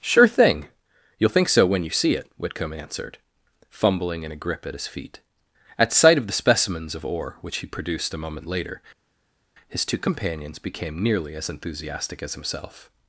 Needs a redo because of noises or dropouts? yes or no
no